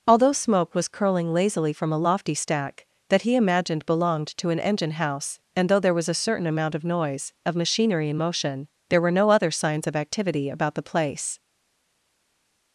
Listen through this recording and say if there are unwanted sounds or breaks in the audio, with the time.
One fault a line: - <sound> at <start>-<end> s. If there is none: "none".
none